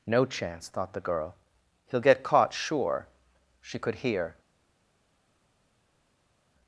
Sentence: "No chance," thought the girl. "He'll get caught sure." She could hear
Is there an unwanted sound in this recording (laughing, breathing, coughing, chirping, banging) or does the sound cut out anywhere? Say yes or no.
no